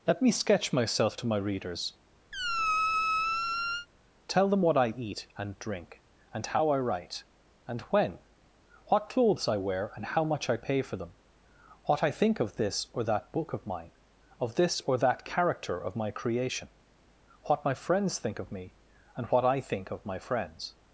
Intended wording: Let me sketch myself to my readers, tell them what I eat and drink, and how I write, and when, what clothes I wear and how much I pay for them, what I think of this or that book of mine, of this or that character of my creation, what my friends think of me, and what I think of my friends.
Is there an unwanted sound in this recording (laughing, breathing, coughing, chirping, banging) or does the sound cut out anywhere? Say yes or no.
yes